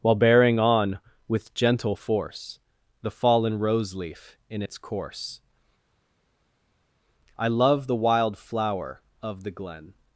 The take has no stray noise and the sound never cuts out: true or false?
true